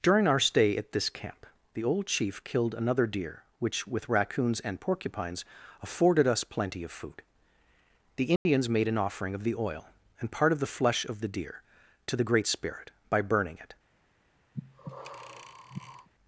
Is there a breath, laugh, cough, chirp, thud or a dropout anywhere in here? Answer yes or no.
yes